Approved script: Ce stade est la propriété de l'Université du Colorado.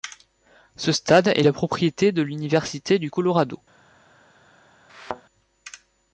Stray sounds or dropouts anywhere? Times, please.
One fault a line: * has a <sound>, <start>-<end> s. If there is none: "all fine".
* has a thud, 4.9-5.2 s